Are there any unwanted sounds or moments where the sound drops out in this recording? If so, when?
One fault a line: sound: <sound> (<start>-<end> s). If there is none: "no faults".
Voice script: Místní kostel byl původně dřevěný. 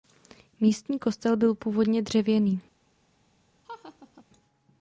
sound: laugh (3.6-4.2 s)